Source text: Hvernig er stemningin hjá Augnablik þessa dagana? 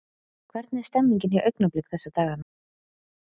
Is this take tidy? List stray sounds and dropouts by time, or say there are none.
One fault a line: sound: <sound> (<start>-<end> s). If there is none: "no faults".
no faults